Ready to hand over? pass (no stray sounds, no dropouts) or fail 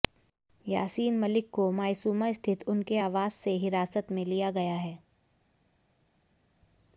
pass